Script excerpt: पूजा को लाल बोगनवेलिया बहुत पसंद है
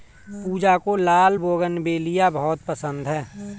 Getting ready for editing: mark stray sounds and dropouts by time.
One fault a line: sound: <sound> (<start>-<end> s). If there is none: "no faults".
no faults